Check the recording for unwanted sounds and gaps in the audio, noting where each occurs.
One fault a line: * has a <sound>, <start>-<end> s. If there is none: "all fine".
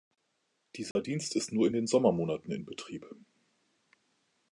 * has a dropout, 0.9-1.0 s